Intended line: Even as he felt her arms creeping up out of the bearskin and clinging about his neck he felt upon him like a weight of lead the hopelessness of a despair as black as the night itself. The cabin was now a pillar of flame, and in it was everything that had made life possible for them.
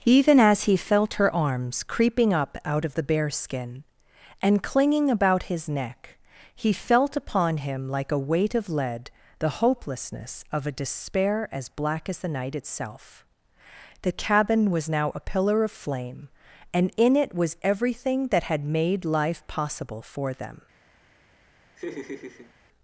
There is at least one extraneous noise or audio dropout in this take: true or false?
true